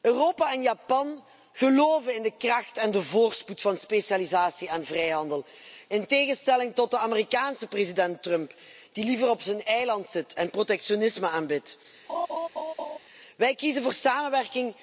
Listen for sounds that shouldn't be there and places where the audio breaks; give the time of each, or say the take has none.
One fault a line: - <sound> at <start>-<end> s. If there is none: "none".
- laugh at 12.1-13.0 s